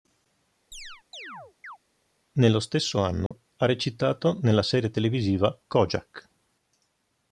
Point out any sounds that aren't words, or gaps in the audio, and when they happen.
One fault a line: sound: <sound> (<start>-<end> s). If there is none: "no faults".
sound: chirp (0.7-1.8 s)
sound: dropout (3.3-3.3 s)